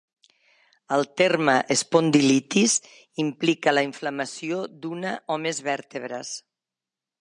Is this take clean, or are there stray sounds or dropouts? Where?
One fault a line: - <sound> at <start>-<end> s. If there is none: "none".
none